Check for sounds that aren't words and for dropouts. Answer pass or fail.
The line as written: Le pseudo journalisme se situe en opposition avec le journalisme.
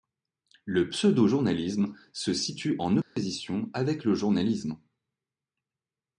fail